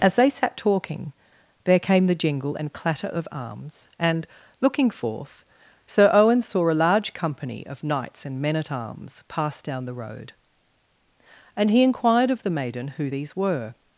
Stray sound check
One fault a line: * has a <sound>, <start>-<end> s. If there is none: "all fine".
all fine